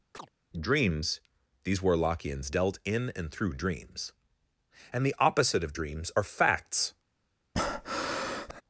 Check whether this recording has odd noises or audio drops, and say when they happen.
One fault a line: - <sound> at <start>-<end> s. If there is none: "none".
- chirp at 0.1-0.3 s
- breath at 7.6-8.6 s